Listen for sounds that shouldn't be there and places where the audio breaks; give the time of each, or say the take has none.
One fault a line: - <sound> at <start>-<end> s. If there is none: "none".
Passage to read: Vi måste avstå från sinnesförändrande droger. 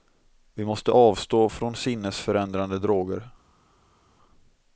none